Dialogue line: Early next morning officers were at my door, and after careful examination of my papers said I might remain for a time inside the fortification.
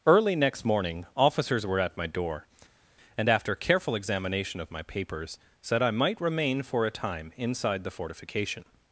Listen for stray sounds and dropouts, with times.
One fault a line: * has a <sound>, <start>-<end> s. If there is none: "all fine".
all fine